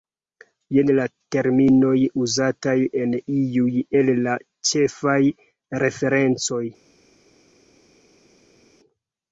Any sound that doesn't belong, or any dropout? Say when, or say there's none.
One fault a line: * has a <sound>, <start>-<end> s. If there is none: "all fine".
all fine